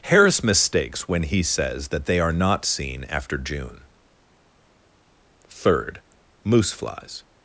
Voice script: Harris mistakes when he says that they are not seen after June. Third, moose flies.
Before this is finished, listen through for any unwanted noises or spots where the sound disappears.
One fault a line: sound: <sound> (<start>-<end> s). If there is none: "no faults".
no faults